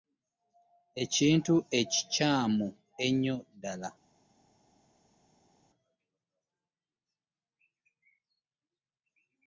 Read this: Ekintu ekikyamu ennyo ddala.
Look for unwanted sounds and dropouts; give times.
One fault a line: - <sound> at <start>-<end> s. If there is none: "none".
none